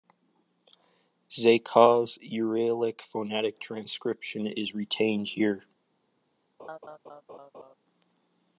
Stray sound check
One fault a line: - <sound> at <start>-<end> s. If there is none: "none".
- laugh at 6.6-7.7 s